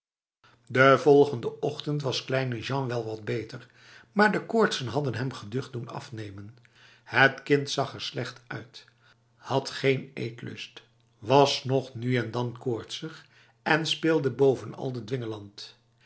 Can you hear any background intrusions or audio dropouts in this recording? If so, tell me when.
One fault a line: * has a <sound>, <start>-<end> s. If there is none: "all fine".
all fine